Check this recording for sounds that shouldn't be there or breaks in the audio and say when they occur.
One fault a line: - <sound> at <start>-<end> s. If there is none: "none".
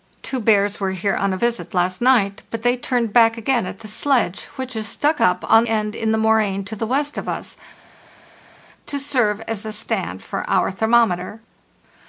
none